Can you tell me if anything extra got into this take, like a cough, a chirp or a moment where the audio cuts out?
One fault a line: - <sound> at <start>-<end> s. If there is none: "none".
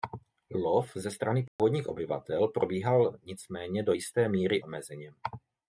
- dropout at 1.5-1.6 s